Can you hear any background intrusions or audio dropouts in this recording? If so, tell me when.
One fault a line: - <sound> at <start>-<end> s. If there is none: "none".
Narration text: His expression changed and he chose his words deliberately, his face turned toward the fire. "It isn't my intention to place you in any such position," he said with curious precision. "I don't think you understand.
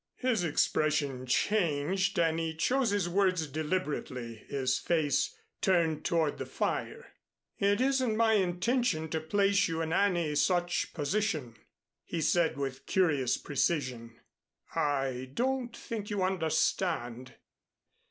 none